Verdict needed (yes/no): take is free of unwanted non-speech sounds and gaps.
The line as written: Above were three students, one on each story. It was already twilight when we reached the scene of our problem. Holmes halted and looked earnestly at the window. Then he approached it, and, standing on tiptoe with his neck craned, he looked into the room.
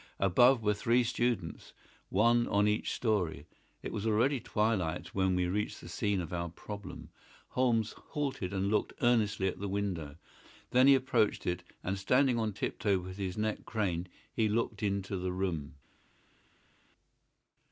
yes